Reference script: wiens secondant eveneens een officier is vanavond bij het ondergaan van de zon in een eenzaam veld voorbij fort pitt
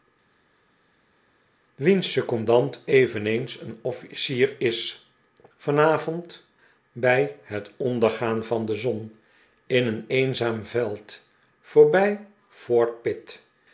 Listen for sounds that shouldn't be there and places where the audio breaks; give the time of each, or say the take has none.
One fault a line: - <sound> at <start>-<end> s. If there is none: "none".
none